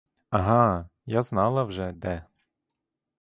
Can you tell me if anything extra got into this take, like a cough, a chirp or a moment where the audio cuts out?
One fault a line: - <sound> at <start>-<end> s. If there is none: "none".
none